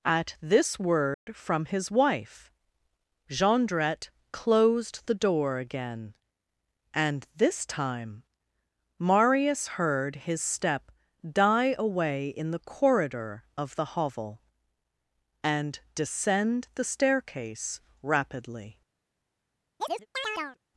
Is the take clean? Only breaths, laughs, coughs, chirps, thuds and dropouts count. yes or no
no